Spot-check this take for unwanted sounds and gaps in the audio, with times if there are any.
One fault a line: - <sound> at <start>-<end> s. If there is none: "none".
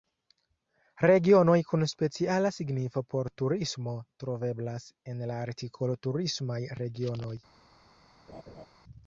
- laugh at 8.3-8.7 s